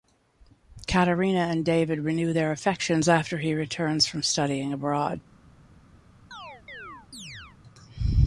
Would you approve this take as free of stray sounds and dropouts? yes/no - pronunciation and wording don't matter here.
no